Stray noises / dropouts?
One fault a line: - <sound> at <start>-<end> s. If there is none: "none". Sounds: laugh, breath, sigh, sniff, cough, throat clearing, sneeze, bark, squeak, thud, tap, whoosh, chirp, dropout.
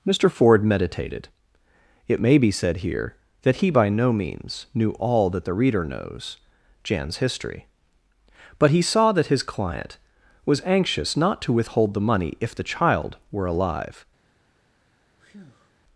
- breath at 15.2-15.7 s